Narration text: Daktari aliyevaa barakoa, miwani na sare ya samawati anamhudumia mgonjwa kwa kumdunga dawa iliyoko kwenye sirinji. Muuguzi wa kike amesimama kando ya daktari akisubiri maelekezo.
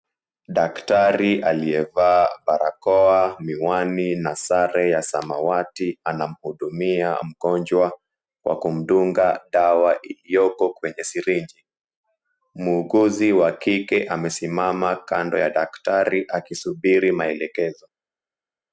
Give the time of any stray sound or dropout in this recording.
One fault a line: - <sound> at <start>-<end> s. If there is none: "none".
none